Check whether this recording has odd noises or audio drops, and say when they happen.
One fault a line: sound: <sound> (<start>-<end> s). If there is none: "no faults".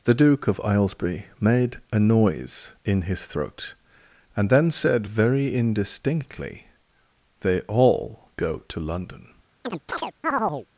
sound: chirp (9.6-10.7 s)